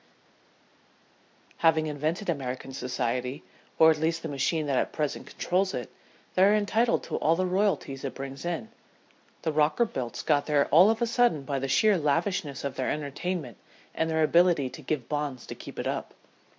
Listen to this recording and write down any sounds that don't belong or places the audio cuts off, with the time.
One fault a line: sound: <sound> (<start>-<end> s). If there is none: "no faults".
no faults